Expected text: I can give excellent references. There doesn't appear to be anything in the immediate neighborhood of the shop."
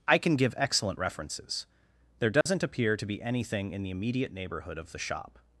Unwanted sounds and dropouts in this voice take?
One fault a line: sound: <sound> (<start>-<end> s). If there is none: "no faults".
sound: dropout (2.4-2.5 s)